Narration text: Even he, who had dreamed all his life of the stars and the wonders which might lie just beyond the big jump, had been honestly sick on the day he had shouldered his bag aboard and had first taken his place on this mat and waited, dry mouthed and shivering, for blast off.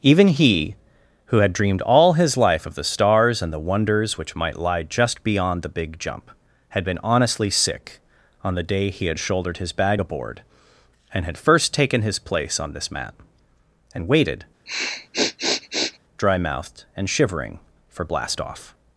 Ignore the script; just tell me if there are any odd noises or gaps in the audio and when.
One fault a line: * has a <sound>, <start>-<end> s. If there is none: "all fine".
* has a sniff, 14.7-16.0 s